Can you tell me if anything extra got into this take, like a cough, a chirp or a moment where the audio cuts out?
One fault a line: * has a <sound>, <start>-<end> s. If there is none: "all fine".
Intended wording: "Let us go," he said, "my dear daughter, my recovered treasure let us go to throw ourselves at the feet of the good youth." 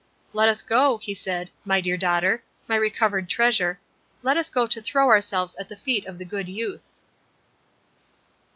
all fine